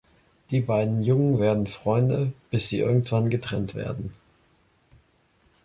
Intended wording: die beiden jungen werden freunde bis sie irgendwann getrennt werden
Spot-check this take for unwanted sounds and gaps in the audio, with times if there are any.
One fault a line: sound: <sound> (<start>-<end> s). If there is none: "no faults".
no faults